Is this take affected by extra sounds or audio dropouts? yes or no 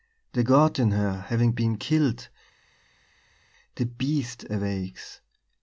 no